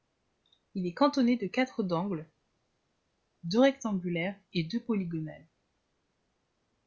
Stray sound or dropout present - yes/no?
no